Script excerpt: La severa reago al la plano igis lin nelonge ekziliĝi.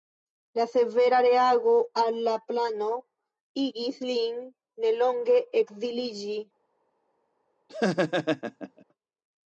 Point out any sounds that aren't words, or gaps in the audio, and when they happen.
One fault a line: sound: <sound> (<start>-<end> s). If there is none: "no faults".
sound: laugh (7.7-8.8 s)